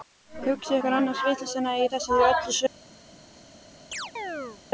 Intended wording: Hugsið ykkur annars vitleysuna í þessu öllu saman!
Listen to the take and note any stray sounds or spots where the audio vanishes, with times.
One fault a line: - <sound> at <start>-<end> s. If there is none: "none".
- chirp at 3.9-4.6 s